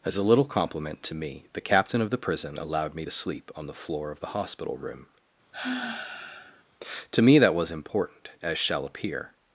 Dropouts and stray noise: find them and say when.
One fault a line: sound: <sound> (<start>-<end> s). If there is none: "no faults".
sound: sigh (5.5-6.6 s)